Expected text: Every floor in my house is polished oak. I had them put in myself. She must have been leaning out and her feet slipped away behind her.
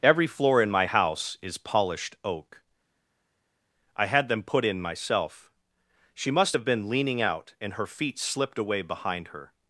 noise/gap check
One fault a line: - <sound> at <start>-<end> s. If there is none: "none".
none